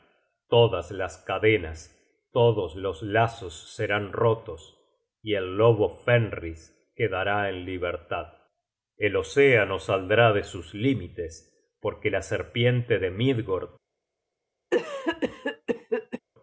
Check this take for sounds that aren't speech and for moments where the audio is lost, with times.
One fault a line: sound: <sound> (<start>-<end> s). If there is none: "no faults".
sound: cough (14.7-16.2 s)